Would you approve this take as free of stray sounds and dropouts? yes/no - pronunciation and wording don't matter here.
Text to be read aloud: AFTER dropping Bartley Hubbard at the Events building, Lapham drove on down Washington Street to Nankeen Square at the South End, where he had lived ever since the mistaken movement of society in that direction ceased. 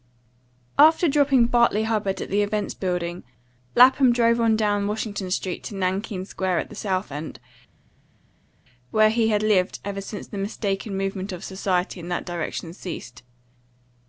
yes